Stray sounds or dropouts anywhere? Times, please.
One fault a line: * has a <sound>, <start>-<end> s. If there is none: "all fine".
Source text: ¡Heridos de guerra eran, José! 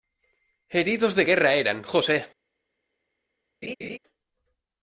* has a laugh, 3.6-4.0 s